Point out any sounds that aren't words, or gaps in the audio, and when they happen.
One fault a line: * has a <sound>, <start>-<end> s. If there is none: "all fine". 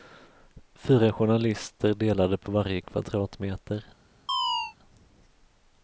* has a chirp, 4.3-4.8 s